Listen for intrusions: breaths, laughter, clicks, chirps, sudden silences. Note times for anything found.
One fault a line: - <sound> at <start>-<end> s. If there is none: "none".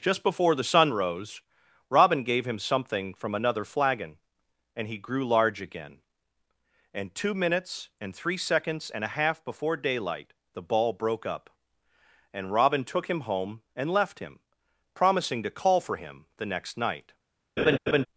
- laugh at 17.6-18.1 s